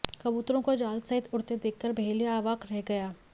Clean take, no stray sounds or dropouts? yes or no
yes